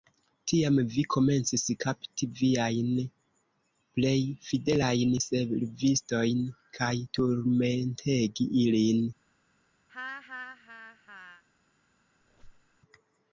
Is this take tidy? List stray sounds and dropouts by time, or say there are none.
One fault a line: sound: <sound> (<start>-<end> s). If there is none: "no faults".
sound: laugh (9.9-11.4 s)
sound: squeak (12.2-12.8 s)